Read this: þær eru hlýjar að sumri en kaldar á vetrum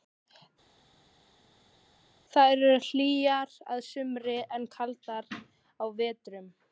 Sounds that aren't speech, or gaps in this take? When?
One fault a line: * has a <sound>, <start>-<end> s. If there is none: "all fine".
all fine